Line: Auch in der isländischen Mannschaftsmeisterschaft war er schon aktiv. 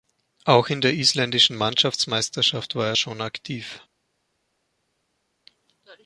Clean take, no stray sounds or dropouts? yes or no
yes